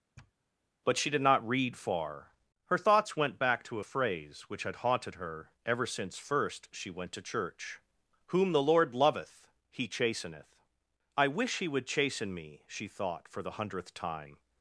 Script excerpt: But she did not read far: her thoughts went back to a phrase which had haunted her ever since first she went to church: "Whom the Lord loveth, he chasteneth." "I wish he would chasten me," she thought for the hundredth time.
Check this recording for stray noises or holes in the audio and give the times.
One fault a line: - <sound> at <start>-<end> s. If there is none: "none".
- sniff at 0.2-0.3 s